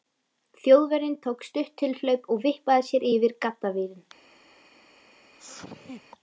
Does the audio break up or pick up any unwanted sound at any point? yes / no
yes